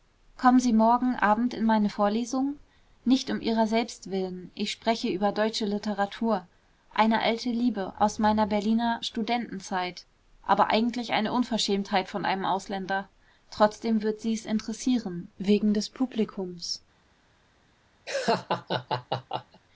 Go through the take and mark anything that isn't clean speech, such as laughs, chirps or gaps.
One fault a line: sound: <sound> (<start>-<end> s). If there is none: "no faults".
sound: laugh (18.1-19.6 s)